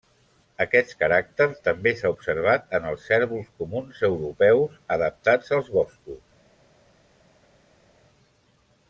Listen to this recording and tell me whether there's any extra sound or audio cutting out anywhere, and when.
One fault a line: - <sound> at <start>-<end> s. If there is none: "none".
none